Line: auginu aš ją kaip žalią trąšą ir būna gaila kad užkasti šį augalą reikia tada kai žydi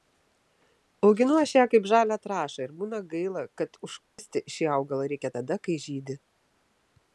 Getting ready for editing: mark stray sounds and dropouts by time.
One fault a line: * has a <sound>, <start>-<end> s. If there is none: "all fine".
* has a dropout, 4.1-4.2 s